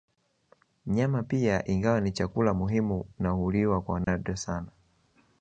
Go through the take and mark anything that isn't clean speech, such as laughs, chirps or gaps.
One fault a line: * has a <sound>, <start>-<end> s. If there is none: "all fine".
* has a dropout, 4.0-4.1 s